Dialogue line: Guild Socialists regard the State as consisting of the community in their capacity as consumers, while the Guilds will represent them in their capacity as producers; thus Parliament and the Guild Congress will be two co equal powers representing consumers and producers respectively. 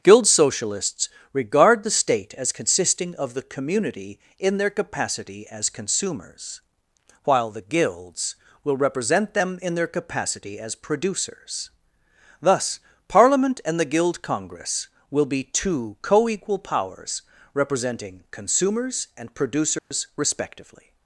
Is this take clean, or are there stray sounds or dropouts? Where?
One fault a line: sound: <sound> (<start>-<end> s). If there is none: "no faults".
sound: dropout (19.8-19.9 s)